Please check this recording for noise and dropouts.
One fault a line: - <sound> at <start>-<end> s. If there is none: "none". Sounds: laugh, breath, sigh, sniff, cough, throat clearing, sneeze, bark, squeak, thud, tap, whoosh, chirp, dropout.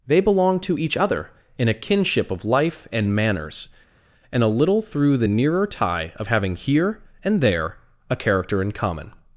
none